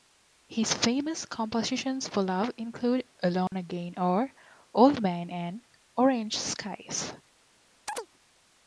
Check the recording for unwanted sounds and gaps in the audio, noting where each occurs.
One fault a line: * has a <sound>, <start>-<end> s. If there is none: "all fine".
* has a dropout, 3.5-3.5 s
* has a chirp, 7.9-8.1 s